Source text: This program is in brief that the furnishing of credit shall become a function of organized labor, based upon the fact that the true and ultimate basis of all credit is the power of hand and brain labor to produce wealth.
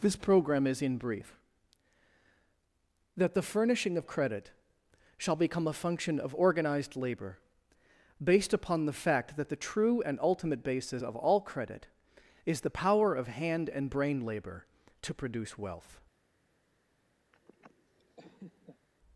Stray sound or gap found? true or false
true